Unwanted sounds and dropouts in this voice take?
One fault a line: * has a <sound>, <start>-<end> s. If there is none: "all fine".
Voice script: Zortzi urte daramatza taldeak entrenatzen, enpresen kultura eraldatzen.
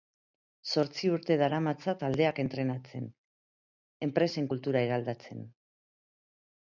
all fine